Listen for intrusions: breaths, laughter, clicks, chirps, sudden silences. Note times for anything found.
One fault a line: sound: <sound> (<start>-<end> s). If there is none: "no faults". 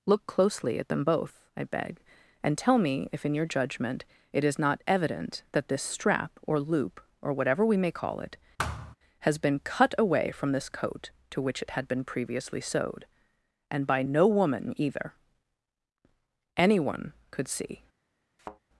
sound: thud (8.6-9.0 s)
sound: thud (18.4-18.6 s)